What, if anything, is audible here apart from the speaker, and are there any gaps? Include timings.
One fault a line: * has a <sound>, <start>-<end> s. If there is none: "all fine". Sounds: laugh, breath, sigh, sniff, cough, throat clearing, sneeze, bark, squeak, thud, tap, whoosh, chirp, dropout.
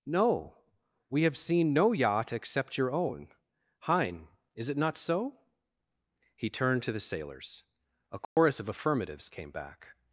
* has a dropout, 8.2-8.4 s